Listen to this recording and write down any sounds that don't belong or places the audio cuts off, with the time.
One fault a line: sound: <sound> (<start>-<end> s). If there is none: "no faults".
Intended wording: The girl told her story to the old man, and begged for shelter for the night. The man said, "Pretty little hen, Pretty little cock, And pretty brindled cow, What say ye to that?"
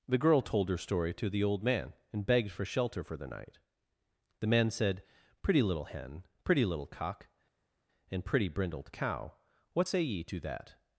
no faults